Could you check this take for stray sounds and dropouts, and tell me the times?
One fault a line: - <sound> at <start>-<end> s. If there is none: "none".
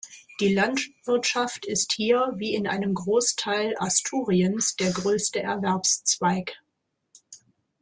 none